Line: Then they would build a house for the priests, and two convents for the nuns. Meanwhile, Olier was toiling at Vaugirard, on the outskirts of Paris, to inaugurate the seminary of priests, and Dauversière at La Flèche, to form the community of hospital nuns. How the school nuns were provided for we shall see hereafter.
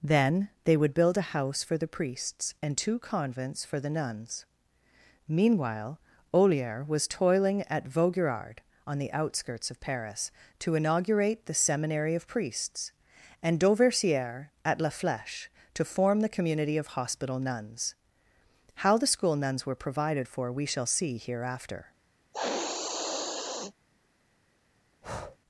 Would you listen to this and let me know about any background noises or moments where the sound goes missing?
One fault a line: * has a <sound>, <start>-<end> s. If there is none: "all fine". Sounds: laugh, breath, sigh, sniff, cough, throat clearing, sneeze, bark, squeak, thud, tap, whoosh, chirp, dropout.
* has a sniff, 22.3-23.7 s
* has a breath, 25.0-25.4 s